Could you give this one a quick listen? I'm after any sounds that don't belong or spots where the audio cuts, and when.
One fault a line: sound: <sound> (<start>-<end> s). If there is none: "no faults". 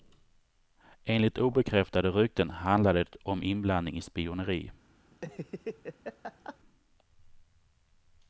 sound: laugh (5.1-6.6 s)